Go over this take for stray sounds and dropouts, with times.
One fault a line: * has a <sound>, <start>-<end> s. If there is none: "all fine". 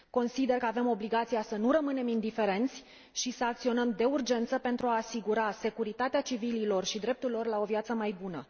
all fine